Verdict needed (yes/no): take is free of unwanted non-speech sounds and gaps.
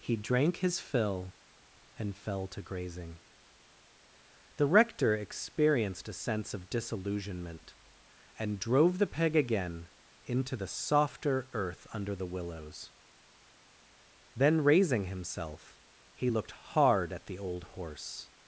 yes